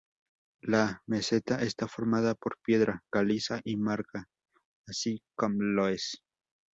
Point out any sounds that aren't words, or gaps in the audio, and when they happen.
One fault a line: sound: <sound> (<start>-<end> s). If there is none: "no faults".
no faults